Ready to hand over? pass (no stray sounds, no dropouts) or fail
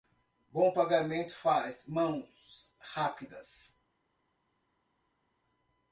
pass